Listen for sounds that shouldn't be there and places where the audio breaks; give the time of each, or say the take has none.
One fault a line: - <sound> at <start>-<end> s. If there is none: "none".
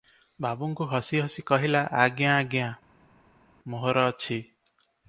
none